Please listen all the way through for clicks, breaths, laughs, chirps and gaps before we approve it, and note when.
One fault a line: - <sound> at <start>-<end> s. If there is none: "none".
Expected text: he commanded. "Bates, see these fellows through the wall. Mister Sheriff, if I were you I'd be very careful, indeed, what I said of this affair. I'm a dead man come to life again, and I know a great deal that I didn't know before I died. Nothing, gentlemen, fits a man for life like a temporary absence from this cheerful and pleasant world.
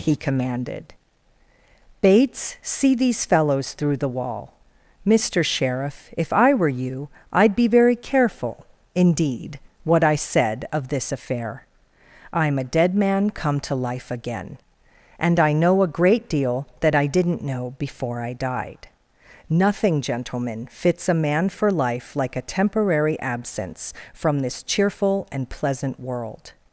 none